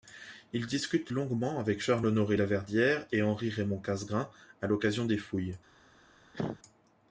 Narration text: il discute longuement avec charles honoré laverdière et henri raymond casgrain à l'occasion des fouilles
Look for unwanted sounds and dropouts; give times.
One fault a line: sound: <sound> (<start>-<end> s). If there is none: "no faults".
sound: cough (6.3-6.6 s)